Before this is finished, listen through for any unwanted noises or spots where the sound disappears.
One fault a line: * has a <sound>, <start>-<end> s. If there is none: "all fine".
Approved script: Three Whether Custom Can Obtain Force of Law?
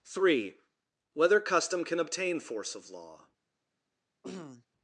* has a throat clearing, 4.2-4.7 s